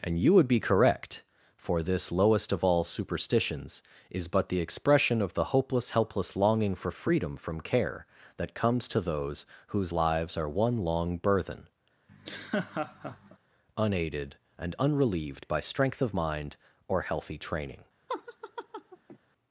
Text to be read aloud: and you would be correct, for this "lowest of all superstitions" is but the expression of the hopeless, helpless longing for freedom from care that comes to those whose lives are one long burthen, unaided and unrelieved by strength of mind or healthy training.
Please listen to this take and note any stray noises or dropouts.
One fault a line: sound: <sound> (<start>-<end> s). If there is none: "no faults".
sound: laugh (12.1-13.4 s)
sound: laugh (18.1-19.2 s)